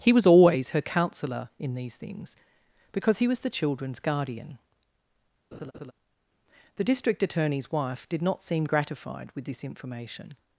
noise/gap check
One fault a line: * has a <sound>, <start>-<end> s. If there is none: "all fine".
* has a laugh, 5.5-5.9 s